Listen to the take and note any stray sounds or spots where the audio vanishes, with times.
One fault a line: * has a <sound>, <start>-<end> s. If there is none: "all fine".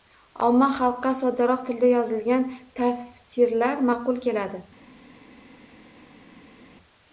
all fine